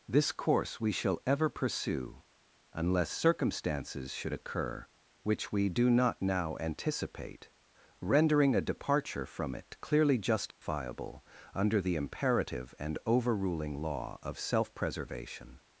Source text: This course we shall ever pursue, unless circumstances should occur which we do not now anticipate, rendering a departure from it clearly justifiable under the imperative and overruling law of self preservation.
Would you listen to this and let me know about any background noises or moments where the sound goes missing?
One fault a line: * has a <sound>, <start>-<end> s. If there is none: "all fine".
* has a dropout, 10.5-10.6 s